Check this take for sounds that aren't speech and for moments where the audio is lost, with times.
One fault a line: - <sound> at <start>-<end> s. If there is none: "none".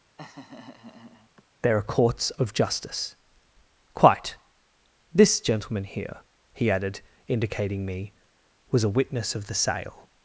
- laugh at 0.2-1.4 s